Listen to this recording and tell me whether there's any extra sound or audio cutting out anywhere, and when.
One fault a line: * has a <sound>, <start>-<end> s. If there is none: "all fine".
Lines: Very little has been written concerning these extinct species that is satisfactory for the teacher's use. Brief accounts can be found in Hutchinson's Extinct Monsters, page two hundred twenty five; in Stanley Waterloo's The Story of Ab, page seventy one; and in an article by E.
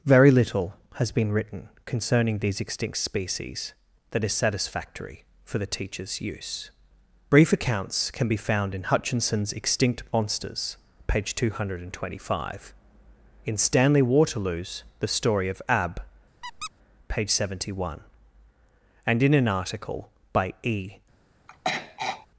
* has a squeak, 16.4-16.7 s
* has a throat clearing, 21.5-22.3 s